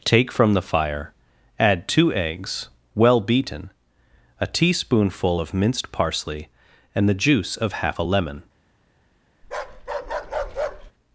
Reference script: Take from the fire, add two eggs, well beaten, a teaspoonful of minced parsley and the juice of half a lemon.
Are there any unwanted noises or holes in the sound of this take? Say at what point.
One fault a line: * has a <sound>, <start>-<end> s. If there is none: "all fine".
* has a bark, 9.4-10.9 s